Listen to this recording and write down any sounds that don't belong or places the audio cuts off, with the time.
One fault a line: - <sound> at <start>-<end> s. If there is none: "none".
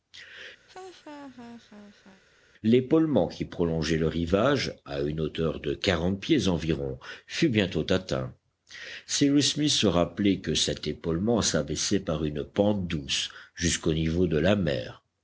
- laugh at 0.7-2.2 s